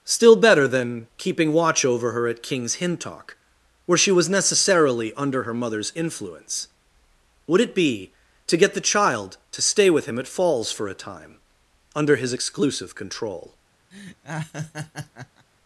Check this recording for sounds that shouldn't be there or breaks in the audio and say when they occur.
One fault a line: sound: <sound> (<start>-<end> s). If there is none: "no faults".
sound: laugh (13.9-15.5 s)